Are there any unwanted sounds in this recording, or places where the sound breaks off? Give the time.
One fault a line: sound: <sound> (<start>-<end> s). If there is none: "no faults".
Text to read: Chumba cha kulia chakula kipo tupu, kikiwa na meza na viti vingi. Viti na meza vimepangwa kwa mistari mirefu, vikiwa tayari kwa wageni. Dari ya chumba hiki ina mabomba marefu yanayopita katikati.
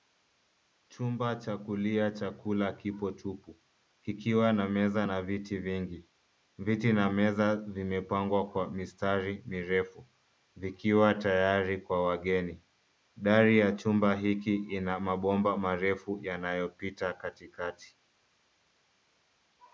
no faults